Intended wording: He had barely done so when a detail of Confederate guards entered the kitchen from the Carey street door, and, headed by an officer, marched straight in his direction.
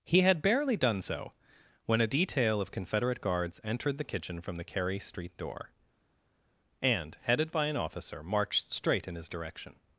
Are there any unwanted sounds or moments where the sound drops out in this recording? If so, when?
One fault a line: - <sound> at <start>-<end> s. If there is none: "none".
none